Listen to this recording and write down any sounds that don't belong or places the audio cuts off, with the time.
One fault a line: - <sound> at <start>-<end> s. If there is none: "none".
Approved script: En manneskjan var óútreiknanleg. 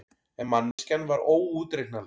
- dropout at 0.7-0.8 s